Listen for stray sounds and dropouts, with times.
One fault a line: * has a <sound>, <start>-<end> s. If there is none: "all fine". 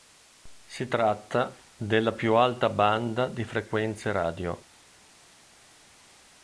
all fine